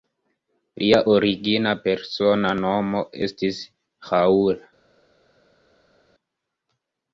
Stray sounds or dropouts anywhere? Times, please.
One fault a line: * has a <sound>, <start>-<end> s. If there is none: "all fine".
all fine